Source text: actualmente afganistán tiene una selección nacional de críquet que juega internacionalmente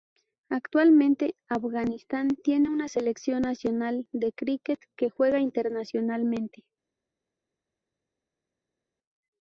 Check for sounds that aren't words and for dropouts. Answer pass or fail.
pass